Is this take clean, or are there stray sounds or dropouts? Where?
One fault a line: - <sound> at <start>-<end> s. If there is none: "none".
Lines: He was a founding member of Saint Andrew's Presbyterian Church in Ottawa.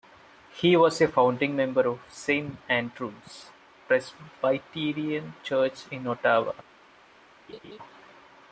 - laugh at 7.5-7.8 s